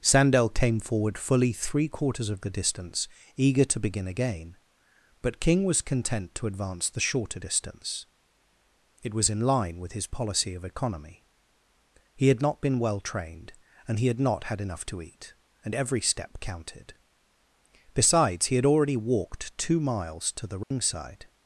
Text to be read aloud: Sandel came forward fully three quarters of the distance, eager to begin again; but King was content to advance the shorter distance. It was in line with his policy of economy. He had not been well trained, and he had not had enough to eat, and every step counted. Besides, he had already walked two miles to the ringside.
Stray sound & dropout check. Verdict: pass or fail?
fail